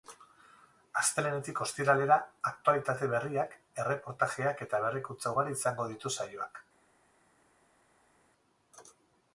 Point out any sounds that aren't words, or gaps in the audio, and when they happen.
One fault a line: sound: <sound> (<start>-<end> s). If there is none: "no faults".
no faults